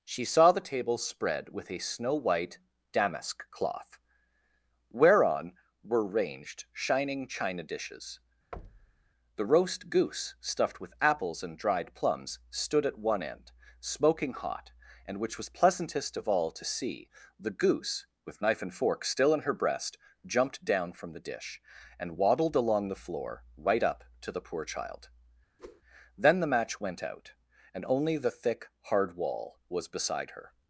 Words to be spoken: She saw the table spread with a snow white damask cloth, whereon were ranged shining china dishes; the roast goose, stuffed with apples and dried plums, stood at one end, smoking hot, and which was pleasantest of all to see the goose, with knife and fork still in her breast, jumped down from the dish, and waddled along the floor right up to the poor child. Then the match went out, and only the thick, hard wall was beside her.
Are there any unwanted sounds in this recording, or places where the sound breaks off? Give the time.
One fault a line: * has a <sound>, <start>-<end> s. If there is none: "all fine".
* has a thud, 8.5-9.1 s
* has a whoosh, 25.6-25.8 s